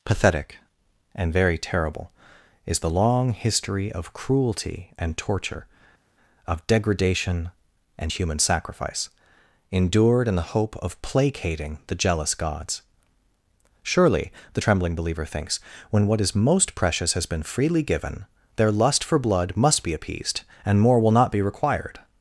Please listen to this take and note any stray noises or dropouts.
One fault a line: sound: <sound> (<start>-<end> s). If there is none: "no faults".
no faults